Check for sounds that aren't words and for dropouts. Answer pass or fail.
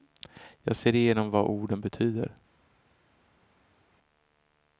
pass